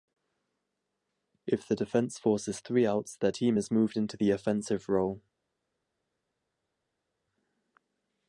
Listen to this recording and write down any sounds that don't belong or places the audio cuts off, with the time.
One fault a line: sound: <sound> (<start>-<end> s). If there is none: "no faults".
no faults